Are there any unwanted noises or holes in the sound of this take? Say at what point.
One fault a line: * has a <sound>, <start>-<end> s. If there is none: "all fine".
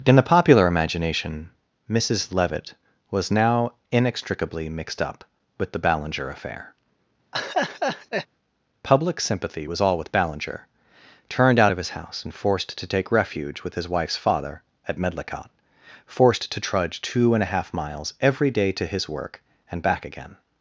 * has a laugh, 7.3-8.3 s